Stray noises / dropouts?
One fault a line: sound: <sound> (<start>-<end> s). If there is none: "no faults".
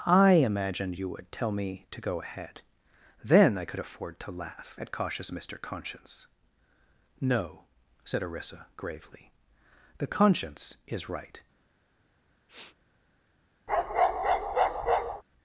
sound: sniff (12.5-12.8 s)
sound: bark (13.7-15.2 s)